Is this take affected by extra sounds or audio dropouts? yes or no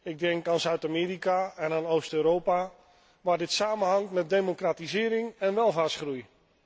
no